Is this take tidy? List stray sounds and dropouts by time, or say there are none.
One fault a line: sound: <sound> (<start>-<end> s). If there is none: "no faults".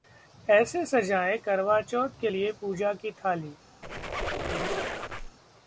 sound: squeak (3.8-5.4 s)